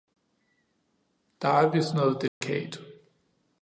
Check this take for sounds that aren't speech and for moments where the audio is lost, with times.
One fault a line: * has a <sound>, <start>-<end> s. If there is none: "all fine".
* has a dropout, 2.3-2.4 s